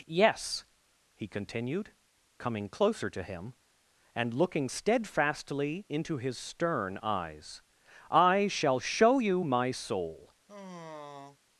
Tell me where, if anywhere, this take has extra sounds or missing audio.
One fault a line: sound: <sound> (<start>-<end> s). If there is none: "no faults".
sound: sigh (10.5-11.4 s)